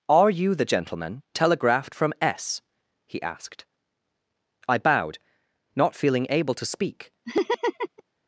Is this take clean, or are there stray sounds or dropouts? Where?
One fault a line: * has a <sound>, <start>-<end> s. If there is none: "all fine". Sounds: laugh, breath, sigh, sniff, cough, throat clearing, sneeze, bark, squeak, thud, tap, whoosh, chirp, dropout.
* has a laugh, 7.2-8.0 s